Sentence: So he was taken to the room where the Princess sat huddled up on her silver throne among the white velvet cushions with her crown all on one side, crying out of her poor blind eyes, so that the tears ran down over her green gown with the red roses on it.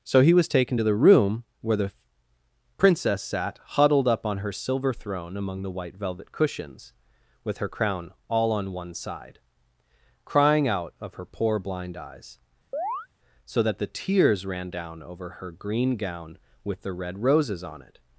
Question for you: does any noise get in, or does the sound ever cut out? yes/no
yes